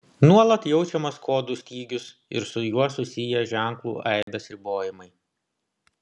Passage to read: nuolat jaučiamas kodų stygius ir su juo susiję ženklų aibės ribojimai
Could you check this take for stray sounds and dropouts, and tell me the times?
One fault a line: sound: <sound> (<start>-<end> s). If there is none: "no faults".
sound: dropout (4.2-4.3 s)